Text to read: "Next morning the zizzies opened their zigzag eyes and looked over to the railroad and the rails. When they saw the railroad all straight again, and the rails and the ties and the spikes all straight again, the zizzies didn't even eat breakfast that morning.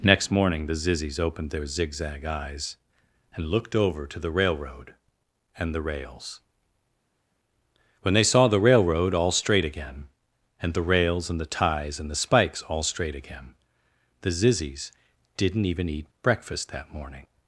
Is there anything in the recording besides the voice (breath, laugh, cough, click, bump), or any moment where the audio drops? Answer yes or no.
no